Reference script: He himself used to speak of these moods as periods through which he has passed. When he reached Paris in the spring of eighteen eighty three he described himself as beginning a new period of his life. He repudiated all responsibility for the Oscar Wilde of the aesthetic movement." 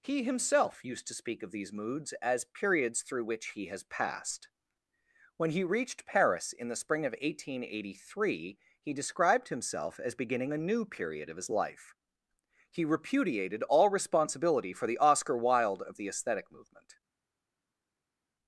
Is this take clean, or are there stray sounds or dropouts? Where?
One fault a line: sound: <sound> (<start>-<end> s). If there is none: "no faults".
no faults